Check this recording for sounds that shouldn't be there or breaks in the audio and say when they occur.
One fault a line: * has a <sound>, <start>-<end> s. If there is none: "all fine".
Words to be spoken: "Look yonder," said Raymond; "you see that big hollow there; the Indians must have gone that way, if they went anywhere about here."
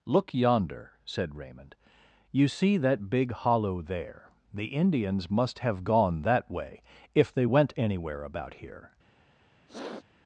* has a sniff, 9.7-10.0 s